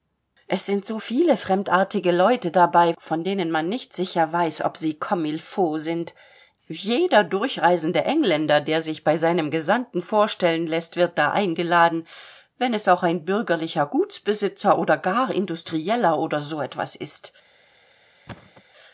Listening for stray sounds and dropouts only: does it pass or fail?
fail